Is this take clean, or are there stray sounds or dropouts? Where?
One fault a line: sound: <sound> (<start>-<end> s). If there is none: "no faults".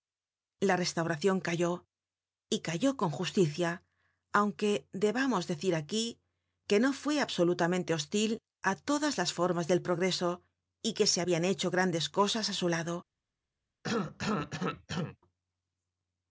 sound: cough (13.8-15.2 s)